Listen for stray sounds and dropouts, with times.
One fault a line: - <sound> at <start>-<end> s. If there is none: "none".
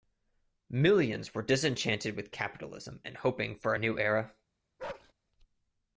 - bark at 4.8-5.1 s